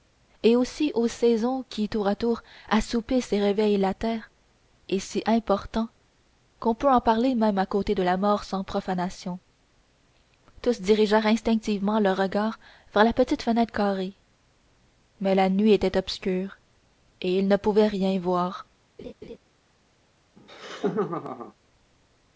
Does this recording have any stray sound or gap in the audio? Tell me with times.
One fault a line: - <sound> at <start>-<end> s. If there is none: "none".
- laugh at 19.0-19.4 s
- laugh at 20.4-21.5 s